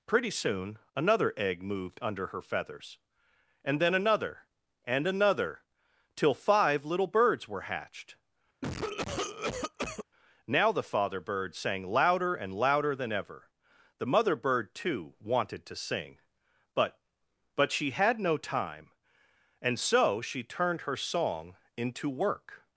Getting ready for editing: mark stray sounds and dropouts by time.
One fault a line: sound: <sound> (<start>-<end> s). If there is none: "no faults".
sound: cough (8.6-10.0 s)